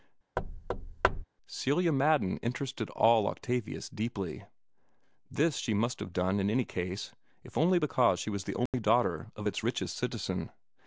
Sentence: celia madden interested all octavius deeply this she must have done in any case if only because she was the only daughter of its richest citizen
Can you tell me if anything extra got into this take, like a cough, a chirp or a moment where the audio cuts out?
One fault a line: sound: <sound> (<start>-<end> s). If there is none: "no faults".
sound: thud (0.4-1.2 s)
sound: dropout (8.7-8.7 s)